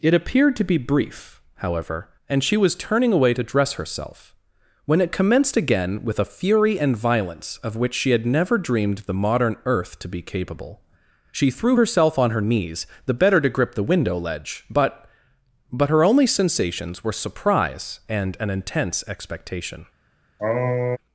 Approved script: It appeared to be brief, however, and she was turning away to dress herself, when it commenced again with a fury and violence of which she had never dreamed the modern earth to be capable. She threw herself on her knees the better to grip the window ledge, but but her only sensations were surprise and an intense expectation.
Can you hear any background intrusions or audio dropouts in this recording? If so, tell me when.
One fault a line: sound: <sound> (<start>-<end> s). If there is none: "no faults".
sound: sniff (20.4-21.0 s)